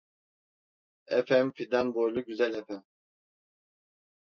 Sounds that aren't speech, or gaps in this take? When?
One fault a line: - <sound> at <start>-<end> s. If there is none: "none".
none